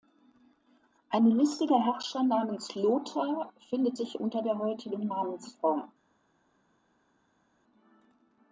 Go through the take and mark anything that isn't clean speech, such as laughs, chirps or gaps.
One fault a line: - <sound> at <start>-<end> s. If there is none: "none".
none